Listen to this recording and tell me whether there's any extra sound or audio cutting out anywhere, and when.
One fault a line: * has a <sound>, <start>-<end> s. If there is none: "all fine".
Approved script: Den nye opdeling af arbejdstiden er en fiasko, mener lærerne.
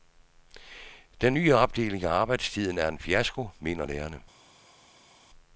all fine